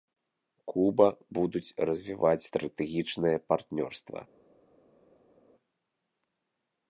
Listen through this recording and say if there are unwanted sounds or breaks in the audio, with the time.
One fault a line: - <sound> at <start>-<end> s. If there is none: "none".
none